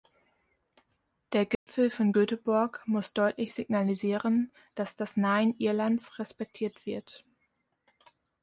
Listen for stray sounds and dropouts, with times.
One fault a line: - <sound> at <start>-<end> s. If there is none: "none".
- dropout at 1.6-1.7 s